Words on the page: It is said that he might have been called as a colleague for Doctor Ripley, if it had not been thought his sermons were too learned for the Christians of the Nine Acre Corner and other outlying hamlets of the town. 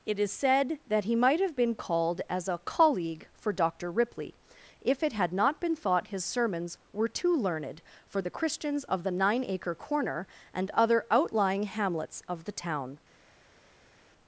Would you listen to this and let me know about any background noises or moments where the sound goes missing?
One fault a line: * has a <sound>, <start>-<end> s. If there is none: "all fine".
all fine